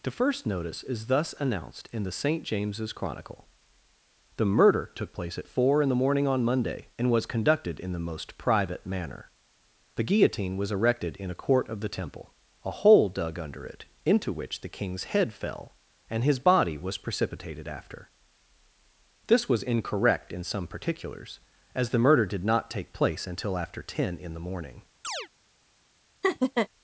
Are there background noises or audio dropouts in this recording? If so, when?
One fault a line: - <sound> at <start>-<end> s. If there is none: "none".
- chirp at 25.0-25.3 s
- laugh at 26.2-26.7 s